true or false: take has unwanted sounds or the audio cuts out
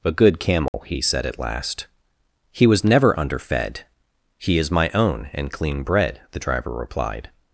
true